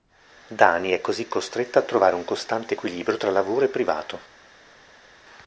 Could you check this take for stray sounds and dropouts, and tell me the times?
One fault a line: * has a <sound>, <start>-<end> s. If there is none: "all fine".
all fine